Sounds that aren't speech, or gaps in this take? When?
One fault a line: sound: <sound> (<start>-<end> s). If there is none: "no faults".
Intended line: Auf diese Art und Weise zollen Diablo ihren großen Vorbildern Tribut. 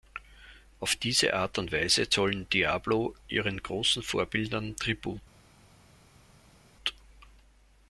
no faults